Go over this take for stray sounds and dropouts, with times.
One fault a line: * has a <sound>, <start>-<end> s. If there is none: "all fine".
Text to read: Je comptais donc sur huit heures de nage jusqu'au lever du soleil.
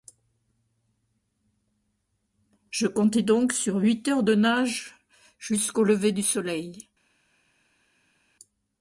all fine